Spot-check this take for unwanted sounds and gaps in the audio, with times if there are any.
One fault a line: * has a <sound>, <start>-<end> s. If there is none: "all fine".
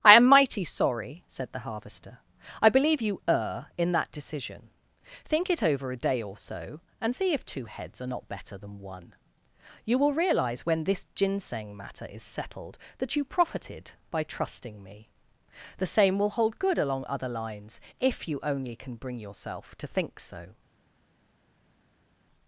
all fine